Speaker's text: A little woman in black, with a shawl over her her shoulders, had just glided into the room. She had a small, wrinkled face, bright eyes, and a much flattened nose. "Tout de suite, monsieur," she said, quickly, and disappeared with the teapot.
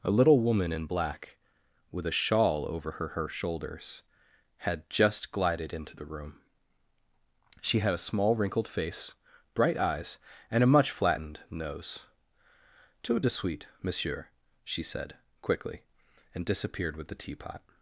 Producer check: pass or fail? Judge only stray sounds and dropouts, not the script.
pass